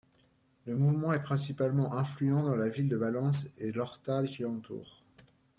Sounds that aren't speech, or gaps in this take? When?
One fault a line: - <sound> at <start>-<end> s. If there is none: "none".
none